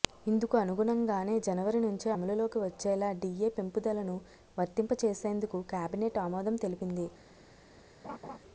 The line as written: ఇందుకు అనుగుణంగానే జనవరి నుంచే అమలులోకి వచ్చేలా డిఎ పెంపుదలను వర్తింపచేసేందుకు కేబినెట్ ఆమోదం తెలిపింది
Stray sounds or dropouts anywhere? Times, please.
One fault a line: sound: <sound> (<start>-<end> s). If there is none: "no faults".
sound: laugh (8.0-8.4 s)